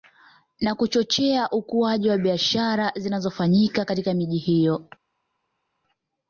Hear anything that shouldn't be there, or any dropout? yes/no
no